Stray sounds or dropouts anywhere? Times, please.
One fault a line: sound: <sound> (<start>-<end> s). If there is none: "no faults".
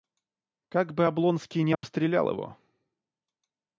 sound: dropout (1.7-1.8 s)